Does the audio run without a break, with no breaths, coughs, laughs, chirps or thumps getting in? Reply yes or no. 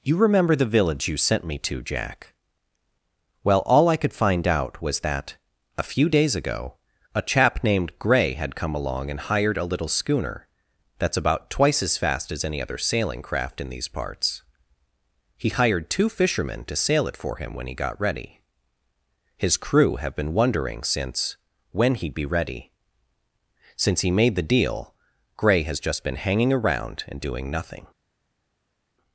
yes